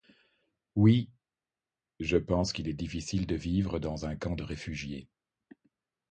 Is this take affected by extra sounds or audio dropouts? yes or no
no